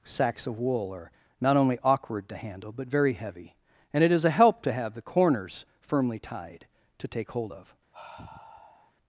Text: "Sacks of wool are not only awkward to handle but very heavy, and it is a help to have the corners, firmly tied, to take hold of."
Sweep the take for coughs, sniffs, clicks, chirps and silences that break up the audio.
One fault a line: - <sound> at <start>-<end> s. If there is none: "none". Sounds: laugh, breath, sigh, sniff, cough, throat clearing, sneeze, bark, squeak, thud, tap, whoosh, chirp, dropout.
- sigh at 7.9-8.9 s